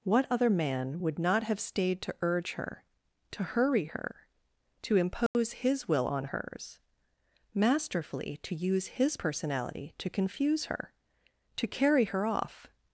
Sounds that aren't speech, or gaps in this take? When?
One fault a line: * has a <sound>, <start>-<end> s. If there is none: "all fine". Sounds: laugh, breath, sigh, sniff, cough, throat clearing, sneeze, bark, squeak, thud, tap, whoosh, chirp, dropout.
* has a dropout, 5.3-5.3 s